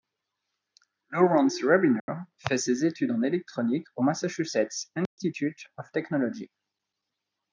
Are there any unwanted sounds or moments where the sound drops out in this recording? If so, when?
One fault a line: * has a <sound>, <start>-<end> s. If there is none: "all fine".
* has a dropout, 2.0-2.1 s
* has a dropout, 5.1-5.2 s